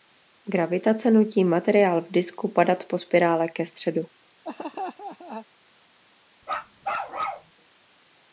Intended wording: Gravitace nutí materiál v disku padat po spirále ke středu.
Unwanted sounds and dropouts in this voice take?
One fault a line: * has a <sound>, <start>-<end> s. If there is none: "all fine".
* has a laugh, 4.4-5.5 s
* has a bark, 6.4-7.5 s